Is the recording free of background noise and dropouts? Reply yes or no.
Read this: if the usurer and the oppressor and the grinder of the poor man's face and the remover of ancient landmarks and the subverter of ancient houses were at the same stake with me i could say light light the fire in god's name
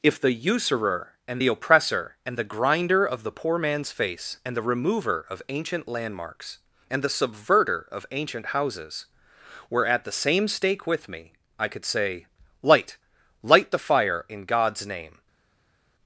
yes